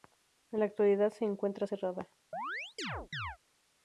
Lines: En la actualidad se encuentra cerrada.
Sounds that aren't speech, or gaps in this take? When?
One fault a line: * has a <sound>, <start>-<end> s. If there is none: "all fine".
* has a chirp, 2.3-3.4 s